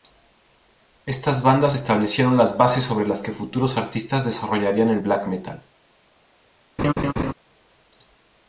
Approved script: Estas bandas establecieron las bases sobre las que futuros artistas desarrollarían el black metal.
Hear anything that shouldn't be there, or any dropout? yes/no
yes